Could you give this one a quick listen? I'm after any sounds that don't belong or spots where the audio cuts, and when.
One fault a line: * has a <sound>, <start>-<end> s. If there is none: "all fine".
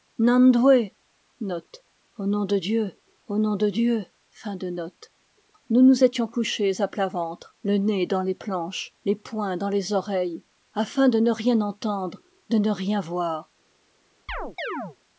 * has a chirp, 14.3-15.0 s